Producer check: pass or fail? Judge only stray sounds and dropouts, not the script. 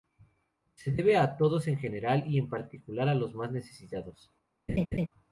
fail